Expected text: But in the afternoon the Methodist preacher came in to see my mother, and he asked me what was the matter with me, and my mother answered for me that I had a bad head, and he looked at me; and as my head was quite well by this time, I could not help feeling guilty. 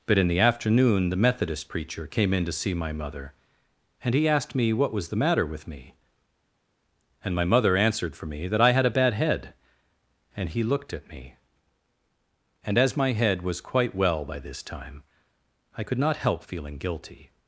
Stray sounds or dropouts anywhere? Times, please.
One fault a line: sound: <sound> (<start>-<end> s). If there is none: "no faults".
no faults